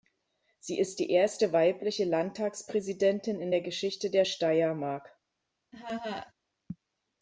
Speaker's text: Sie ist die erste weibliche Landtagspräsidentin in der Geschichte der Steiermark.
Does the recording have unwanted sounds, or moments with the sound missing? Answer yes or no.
yes